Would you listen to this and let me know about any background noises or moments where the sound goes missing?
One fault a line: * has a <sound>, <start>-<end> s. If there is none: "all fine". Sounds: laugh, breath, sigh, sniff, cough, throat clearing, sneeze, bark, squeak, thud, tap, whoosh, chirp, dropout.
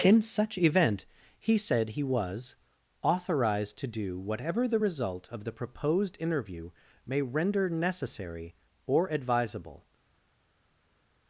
all fine